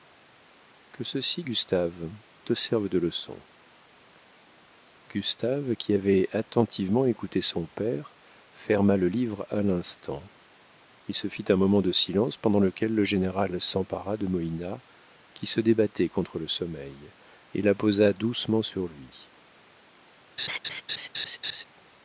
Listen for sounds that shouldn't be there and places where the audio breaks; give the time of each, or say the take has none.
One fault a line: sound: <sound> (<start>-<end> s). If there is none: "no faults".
sound: laugh (20.4-21.6 s)